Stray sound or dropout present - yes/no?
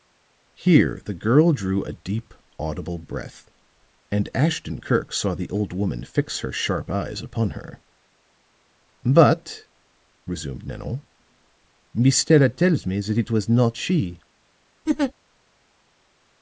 yes